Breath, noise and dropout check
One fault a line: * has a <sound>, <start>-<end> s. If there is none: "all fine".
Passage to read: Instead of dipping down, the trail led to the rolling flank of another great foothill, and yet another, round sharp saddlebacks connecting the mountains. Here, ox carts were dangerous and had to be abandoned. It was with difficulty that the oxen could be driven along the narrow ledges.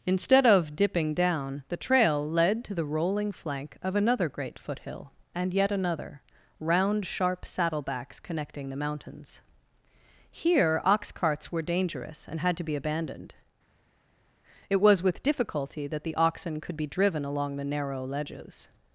all fine